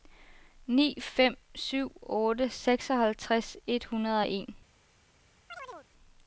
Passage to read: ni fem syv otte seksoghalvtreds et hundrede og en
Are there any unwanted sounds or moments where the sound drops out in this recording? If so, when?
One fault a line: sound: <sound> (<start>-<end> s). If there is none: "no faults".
sound: chirp (5.5-5.9 s)